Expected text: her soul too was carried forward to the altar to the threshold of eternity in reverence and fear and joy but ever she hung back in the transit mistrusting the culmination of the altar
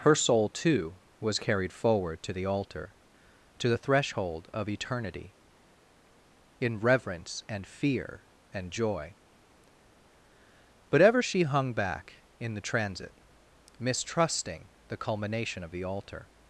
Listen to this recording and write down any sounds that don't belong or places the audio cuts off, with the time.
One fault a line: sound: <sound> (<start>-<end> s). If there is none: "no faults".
no faults